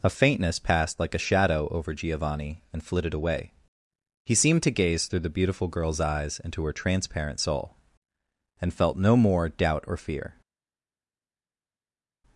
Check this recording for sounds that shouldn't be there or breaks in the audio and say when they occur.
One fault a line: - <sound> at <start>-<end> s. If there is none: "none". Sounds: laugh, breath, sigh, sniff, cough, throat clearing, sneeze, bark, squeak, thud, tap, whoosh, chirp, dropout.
none